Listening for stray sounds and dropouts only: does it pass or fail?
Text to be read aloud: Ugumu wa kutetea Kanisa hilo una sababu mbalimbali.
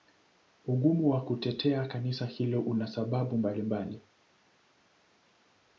pass